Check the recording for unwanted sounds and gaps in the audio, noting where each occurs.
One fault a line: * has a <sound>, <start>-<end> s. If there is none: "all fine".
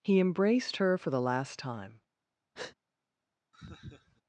* has a breath, 2.5-2.8 s
* has a laugh, 3.5-4.2 s